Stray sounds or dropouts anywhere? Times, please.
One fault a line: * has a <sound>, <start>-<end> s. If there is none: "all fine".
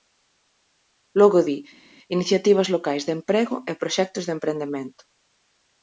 all fine